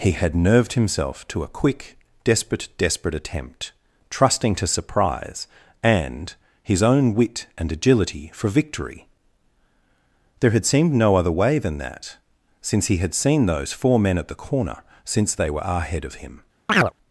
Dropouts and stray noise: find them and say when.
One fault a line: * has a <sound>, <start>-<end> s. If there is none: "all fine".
* has a chirp, 16.7-16.9 s